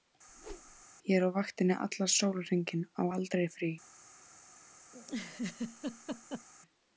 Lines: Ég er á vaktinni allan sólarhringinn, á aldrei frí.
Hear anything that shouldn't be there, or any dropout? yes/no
yes